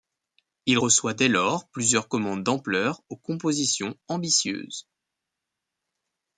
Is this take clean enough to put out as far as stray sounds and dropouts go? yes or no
yes